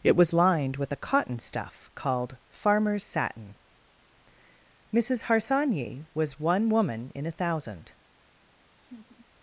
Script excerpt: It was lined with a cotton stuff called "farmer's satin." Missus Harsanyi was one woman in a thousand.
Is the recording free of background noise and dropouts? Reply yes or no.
no